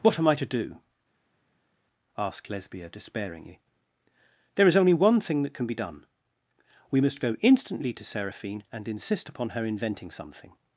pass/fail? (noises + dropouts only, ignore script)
pass